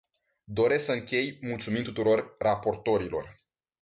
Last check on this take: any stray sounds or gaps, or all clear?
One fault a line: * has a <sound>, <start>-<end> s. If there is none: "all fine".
all fine